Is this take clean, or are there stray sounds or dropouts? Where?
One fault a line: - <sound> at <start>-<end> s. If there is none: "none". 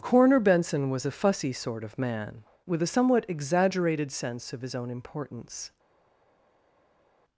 none